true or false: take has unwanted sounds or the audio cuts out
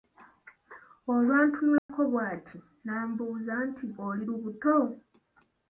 true